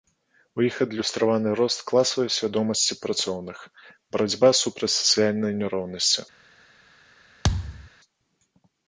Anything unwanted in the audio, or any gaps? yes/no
yes